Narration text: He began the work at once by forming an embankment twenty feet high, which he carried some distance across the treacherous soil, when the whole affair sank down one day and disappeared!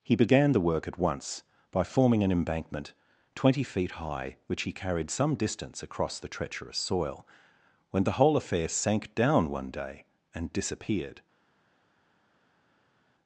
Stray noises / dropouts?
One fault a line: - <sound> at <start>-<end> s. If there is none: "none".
none